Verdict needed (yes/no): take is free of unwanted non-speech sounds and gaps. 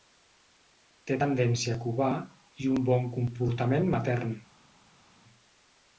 yes